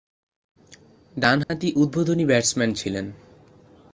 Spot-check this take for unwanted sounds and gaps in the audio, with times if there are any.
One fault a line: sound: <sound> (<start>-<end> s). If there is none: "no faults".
sound: dropout (1.4-1.5 s)